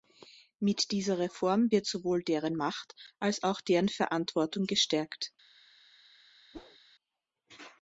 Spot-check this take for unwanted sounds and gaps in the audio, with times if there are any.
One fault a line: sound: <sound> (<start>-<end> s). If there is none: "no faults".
sound: whoosh (6.5-6.8 s)